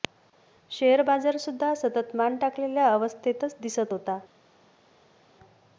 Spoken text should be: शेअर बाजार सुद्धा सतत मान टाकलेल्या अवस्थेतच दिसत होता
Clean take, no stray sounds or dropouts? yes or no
yes